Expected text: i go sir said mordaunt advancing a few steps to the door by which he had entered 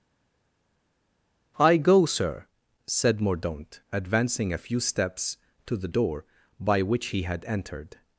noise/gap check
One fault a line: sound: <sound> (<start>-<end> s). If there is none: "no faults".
no faults